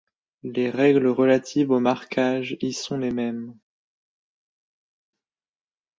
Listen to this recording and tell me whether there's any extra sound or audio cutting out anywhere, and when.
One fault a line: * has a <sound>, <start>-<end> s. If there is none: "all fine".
all fine